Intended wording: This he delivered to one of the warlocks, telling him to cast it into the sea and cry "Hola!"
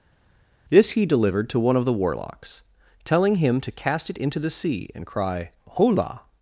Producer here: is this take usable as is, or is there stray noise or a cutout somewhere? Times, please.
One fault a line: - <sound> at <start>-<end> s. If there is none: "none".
none